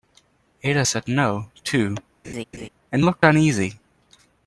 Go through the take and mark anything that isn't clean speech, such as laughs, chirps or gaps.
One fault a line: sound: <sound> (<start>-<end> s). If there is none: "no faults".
sound: laugh (2.2-2.7 s)